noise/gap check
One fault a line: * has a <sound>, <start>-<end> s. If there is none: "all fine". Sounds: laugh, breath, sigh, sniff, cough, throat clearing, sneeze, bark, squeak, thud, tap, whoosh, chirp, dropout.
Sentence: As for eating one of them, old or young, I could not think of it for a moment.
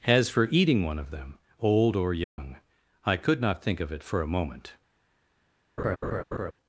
* has a dropout, 2.2-2.4 s
* has a laugh, 5.8-6.5 s